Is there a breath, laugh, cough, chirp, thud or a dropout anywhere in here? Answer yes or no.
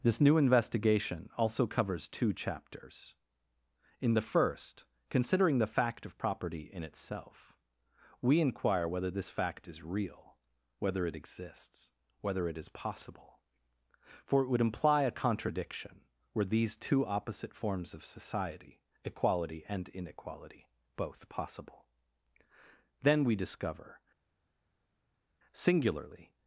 no